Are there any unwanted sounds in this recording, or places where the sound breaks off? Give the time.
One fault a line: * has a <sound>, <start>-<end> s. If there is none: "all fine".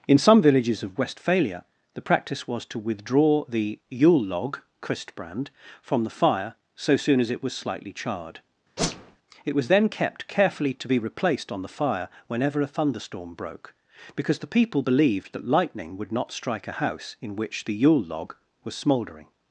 * has a whoosh, 8.8-9.2 s